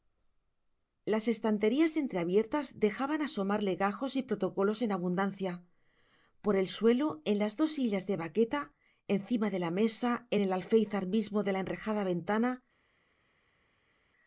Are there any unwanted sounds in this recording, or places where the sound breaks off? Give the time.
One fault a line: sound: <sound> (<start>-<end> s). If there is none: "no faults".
no faults